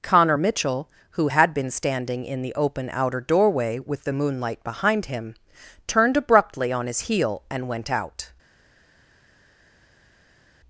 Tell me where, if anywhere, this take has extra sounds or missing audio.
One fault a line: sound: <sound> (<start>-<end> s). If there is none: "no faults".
no faults